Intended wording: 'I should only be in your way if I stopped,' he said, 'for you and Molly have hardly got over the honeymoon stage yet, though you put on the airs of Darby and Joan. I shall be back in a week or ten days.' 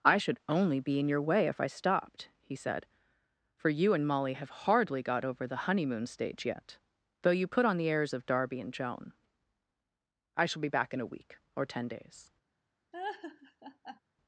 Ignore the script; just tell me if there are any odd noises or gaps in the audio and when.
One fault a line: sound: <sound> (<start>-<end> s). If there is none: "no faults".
sound: laugh (12.9-14.0 s)